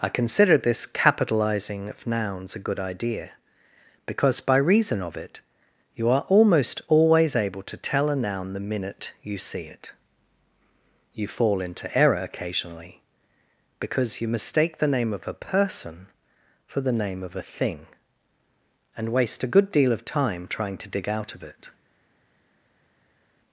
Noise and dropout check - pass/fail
pass